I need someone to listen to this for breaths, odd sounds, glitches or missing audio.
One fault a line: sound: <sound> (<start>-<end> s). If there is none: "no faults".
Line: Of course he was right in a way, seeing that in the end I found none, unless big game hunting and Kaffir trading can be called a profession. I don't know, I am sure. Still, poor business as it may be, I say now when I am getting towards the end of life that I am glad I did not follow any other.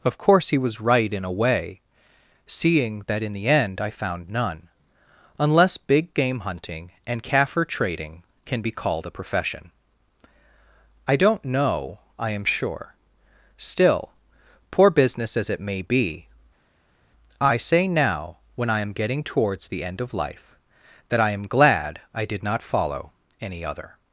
no faults